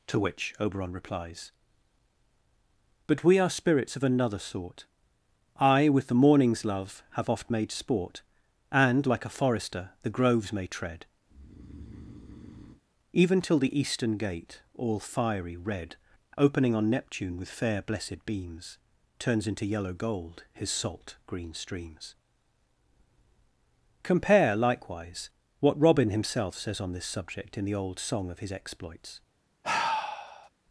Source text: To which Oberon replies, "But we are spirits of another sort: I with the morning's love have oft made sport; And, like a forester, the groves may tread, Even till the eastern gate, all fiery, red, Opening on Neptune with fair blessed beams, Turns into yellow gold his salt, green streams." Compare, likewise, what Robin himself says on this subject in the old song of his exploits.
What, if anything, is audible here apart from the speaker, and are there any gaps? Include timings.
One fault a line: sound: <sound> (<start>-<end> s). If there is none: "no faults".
sound: breath (11.3-12.8 s)
sound: sigh (29.6-30.5 s)